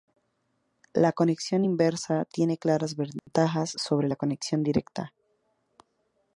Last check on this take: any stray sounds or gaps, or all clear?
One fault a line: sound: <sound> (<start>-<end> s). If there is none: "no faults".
sound: dropout (3.2-3.3 s)